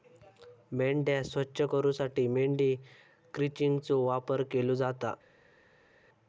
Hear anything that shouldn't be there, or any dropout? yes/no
no